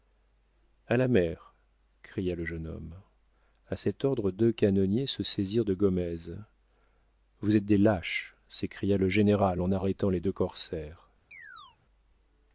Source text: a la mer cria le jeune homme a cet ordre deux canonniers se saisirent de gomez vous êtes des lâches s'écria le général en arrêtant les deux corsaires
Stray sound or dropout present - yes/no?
yes